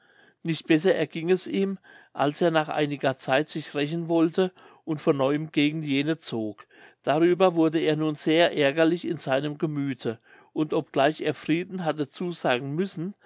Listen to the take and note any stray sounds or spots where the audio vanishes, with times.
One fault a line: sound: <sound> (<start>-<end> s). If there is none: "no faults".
no faults